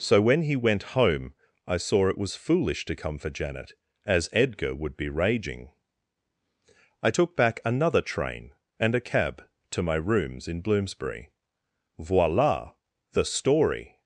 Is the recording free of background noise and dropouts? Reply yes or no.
yes